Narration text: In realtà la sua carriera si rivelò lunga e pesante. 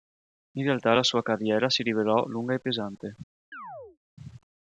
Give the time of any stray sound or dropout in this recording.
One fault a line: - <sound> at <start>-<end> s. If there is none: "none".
- chirp at 3.5-4.0 s